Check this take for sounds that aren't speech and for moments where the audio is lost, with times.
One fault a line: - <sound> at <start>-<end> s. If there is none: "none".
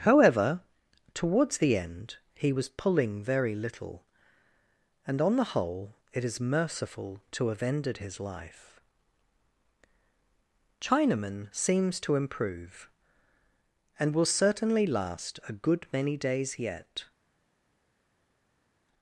none